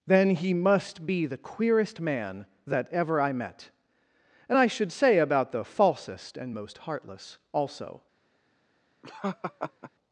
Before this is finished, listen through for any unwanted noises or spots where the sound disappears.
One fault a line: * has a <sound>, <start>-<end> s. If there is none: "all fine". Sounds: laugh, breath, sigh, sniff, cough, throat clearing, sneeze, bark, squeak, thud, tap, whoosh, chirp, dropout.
* has a laugh, 9.0-9.9 s